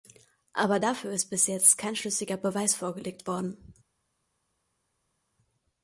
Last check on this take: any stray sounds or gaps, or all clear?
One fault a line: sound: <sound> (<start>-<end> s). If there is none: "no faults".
no faults